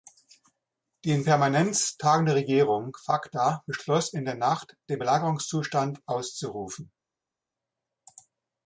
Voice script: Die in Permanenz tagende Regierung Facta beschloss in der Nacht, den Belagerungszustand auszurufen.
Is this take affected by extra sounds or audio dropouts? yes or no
no